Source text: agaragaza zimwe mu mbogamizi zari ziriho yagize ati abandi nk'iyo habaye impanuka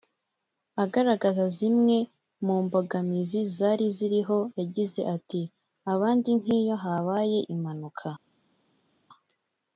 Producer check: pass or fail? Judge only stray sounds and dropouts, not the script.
pass